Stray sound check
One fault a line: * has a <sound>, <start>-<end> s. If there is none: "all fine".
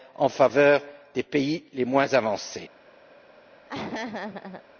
* has a laugh, 3.7-4.6 s